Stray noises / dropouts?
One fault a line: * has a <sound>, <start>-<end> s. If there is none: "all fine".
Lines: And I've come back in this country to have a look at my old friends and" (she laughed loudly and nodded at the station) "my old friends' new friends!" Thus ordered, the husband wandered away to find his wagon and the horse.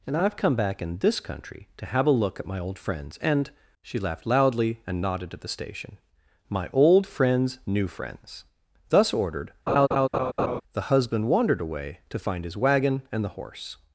* has a laugh, 9.7-10.6 s